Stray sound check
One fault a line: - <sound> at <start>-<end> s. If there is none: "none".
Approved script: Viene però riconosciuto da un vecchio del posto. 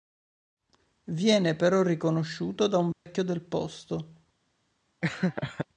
- dropout at 2.9-3.1 s
- laugh at 5.0-5.7 s